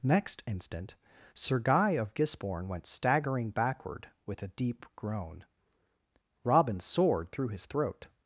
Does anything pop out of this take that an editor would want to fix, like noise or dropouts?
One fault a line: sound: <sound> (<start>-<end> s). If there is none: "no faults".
no faults